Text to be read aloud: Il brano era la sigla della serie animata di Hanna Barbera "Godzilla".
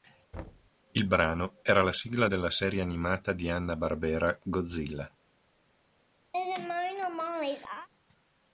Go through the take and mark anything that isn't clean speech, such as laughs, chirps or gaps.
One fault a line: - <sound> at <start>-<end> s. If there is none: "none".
- thud at 0.3-0.7 s
- laugh at 6.3-7.9 s